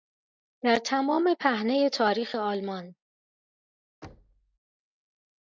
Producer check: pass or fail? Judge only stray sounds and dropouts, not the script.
fail